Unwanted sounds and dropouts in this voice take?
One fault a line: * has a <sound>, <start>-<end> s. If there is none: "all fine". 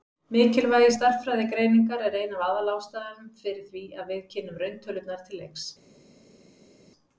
all fine